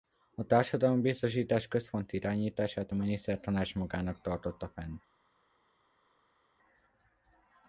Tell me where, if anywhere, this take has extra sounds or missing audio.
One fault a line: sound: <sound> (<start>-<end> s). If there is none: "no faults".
no faults